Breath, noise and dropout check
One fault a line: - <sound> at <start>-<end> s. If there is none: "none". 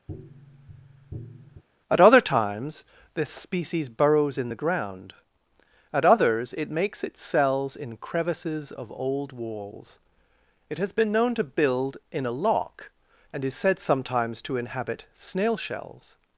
- tap at 0.1-1.6 s